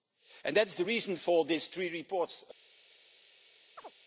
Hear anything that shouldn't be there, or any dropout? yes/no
yes